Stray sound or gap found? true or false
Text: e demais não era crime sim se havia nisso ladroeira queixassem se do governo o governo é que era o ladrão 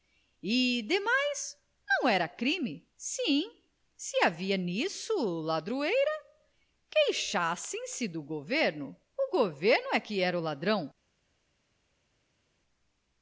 false